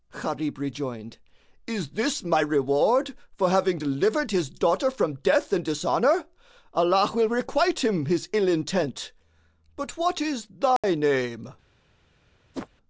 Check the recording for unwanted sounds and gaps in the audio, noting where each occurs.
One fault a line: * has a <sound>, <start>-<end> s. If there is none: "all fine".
* has a dropout, 10.8-10.8 s
* has a whoosh, 12.5-12.7 s